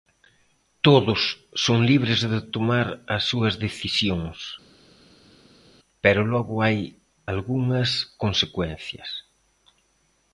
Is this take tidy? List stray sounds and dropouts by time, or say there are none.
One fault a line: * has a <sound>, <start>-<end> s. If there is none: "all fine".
all fine